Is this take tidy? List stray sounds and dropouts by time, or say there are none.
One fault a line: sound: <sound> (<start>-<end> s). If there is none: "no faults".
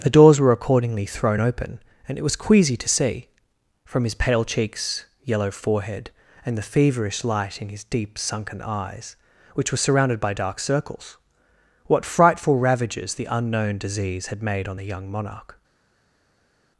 no faults